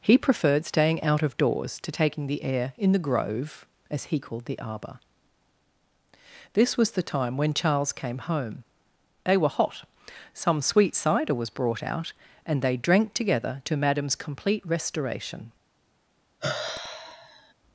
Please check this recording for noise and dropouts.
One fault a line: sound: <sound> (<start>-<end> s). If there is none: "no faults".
sound: sigh (16.4-17.5 s)